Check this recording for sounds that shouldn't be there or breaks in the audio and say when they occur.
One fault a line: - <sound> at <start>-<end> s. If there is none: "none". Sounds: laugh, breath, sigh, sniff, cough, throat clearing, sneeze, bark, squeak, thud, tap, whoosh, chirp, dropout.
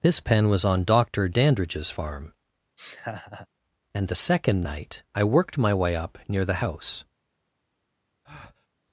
- laugh at 2.8-3.5 s
- breath at 8.2-8.7 s